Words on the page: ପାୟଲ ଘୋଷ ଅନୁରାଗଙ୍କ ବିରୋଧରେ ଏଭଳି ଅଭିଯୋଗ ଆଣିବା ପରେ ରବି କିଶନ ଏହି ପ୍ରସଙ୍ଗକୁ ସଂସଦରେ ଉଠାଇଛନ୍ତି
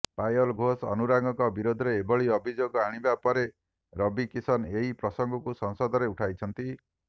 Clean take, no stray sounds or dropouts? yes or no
yes